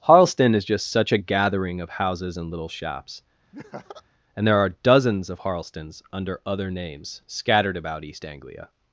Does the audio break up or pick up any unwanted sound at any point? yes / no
yes